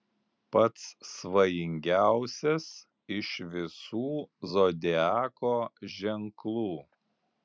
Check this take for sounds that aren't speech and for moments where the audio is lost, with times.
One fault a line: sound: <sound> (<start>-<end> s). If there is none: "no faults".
no faults